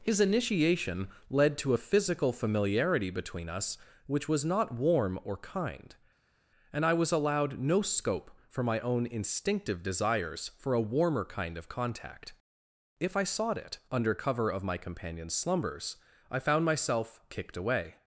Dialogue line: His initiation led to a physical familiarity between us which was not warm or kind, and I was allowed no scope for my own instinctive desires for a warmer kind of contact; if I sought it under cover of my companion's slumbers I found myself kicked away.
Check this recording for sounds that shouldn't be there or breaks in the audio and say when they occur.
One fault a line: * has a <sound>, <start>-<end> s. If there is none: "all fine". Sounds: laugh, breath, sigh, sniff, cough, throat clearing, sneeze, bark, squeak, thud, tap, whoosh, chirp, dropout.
all fine